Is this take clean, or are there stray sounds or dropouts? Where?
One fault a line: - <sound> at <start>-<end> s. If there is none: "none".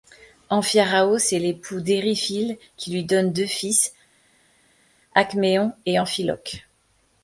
none